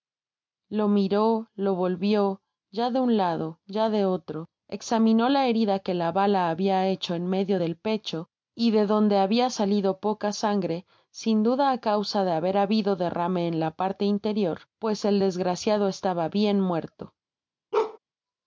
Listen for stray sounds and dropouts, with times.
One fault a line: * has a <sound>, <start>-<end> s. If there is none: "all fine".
* has a bark, 17.7-18.0 s